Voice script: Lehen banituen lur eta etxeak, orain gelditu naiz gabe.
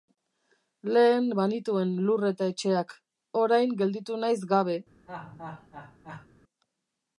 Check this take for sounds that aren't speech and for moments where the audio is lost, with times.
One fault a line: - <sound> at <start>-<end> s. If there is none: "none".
- laugh at 5.1-6.3 s